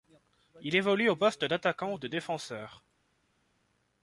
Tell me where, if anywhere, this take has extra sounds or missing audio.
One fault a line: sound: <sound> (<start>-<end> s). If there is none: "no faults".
no faults